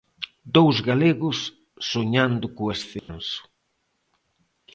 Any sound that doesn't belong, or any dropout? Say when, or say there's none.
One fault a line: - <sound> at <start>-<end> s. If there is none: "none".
- dropout at 3.0-3.1 s